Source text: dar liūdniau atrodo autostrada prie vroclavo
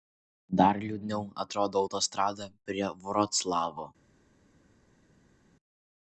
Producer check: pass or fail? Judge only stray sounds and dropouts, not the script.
pass